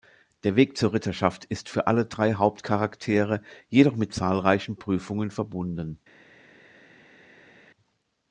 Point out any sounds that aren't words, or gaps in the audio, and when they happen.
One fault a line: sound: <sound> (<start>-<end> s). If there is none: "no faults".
no faults